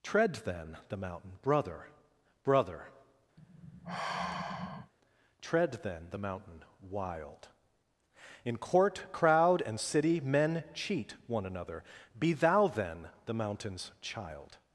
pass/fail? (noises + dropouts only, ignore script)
fail